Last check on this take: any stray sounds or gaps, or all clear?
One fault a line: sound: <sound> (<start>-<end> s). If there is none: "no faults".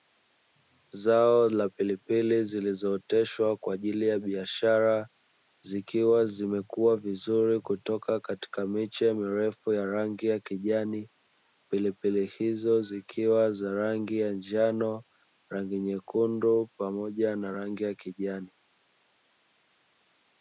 no faults